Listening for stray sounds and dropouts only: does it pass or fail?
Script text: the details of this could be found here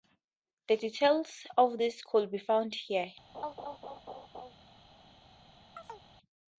fail